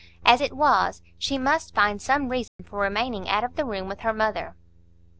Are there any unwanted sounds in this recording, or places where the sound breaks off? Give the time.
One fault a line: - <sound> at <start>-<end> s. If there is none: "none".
- dropout at 2.5-2.6 s